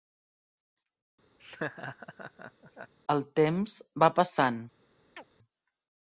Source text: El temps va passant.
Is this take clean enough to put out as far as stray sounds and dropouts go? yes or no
no